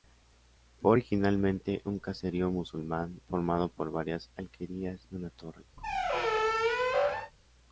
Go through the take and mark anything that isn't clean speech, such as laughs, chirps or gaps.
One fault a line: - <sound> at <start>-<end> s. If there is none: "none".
- squeak at 5.8-7.3 s